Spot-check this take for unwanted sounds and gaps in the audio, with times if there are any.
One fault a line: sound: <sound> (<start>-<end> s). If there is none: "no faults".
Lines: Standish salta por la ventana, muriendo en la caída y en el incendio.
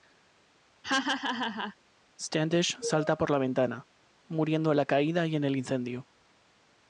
sound: laugh (0.8-1.8 s)